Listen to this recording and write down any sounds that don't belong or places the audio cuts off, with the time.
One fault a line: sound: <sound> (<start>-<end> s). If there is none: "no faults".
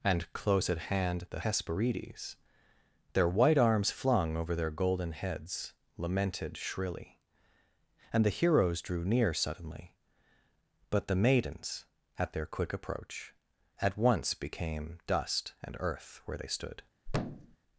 sound: thud (17.1-17.6 s)